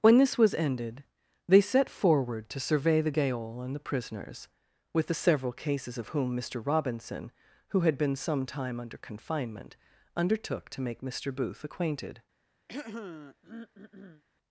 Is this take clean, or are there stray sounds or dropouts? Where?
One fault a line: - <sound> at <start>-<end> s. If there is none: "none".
- throat clearing at 12.7-14.2 s